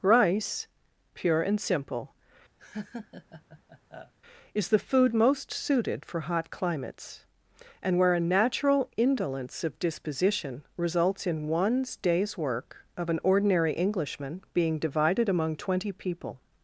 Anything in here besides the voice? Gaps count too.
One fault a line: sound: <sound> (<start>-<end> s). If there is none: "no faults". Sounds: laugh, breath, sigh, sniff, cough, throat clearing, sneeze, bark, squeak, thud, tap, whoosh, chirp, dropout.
sound: laugh (2.6-4.1 s)